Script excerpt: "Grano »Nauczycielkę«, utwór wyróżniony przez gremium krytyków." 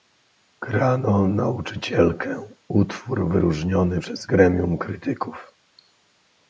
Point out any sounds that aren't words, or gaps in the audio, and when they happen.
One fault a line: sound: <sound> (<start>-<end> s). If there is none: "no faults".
no faults